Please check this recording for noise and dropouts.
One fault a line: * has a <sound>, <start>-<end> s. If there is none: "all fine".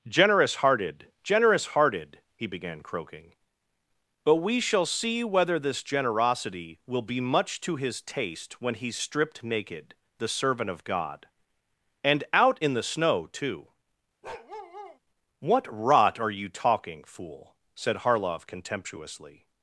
* has a bark, 14.2-15.0 s